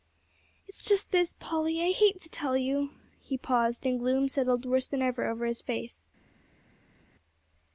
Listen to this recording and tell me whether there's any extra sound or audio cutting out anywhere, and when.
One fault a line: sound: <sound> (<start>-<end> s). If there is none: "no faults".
no faults